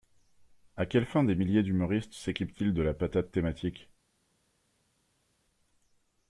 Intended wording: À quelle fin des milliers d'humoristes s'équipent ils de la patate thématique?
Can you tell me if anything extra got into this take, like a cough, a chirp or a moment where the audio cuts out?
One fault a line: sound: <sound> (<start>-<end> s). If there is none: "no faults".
no faults